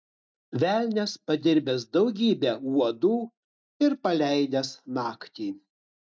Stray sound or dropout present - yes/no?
no